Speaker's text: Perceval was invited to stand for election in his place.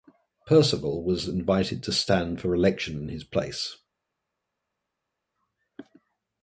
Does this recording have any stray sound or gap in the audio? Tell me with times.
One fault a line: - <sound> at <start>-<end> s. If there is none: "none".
none